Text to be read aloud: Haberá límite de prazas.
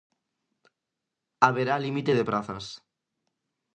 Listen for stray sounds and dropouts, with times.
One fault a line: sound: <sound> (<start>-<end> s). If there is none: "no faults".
no faults